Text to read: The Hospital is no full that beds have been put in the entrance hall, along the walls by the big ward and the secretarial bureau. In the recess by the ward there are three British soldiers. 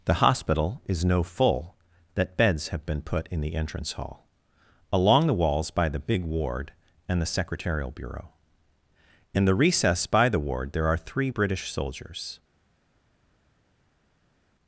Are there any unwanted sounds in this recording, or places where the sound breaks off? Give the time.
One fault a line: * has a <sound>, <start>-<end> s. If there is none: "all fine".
all fine